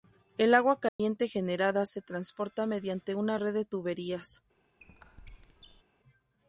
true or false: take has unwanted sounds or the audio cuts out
true